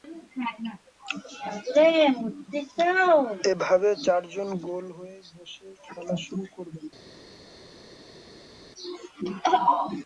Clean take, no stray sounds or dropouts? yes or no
yes